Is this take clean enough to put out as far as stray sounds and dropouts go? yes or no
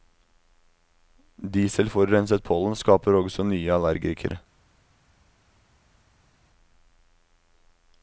yes